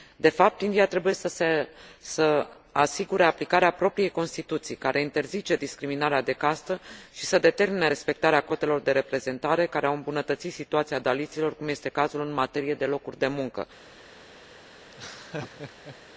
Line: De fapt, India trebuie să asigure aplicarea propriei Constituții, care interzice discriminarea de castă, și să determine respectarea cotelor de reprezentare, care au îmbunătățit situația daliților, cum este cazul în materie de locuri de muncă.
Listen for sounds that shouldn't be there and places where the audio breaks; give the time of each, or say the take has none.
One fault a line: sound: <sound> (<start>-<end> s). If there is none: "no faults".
sound: laugh (14.9-16.0 s)